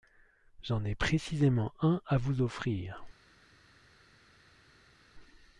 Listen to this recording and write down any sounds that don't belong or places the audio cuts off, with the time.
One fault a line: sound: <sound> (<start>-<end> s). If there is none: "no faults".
no faults